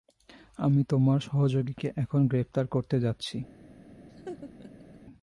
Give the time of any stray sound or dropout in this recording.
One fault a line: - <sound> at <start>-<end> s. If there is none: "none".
- laugh at 4.1-5.0 s